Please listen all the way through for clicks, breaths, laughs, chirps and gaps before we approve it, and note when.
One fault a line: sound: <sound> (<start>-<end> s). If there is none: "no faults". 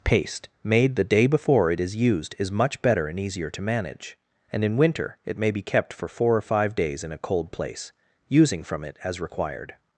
no faults